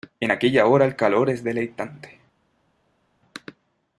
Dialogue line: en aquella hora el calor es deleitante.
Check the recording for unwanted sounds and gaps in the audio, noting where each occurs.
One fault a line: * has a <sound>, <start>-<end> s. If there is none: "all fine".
all fine